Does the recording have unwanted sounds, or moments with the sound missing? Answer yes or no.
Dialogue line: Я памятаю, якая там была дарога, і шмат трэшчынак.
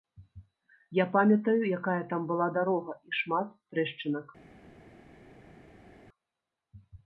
no